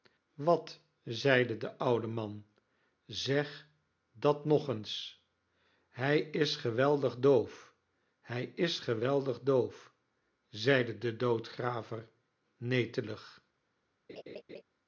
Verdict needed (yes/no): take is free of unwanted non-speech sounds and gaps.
no